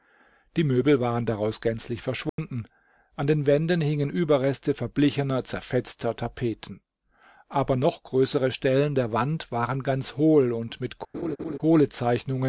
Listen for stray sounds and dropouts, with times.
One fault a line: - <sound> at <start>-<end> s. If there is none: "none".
- dropout at 2.3-2.4 s
- laugh at 11.1-11.6 s